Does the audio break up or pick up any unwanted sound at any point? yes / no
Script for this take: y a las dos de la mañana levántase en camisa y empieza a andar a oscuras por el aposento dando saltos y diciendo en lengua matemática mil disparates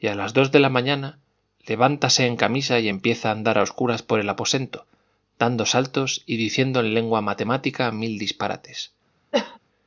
yes